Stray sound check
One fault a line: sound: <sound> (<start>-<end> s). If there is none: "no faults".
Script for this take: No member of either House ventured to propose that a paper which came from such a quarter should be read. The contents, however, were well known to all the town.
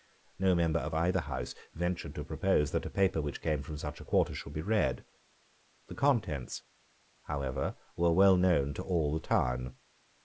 no faults